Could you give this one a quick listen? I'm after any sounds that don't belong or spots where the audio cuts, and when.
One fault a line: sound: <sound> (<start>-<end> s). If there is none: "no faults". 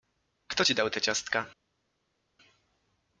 no faults